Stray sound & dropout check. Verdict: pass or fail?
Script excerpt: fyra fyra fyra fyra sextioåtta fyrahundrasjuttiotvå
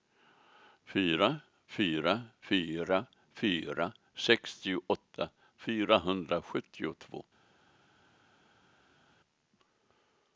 pass